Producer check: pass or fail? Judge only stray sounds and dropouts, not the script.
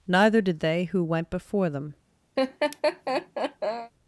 fail